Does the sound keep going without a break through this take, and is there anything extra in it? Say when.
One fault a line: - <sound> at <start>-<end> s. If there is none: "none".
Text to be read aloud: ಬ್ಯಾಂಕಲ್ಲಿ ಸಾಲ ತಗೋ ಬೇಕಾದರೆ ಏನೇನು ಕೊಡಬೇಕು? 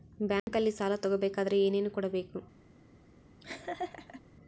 - dropout at 0.4-0.5 s
- laugh at 3.4-4.2 s